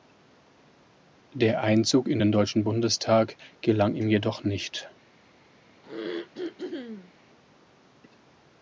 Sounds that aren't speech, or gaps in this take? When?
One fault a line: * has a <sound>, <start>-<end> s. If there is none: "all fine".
* has a throat clearing, 5.8-7.1 s